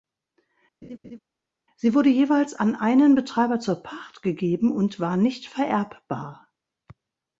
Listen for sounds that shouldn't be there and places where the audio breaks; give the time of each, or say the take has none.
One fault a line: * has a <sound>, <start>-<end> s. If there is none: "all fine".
* has a laugh, 0.8-1.2 s